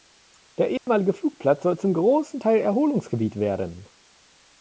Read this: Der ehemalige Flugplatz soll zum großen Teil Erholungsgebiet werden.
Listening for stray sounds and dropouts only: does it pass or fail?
fail